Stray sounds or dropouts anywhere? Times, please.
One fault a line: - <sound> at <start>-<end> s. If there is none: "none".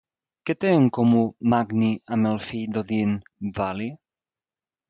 none